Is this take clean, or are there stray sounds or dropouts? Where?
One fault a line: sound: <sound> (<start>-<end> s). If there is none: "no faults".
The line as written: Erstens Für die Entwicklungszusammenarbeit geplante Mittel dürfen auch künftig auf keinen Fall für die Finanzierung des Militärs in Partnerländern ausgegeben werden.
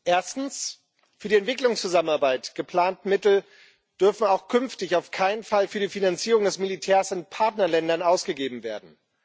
no faults